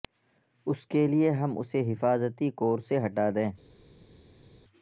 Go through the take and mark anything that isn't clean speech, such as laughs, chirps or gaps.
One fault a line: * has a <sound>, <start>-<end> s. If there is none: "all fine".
all fine